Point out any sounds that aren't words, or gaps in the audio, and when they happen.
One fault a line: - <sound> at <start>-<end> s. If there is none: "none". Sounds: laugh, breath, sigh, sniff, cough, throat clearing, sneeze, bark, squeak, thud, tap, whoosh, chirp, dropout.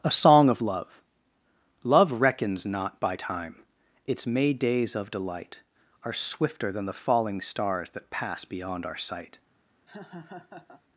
- laugh at 9.9-10.8 s